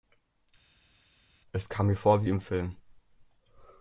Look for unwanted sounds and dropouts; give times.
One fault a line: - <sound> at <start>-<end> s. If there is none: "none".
none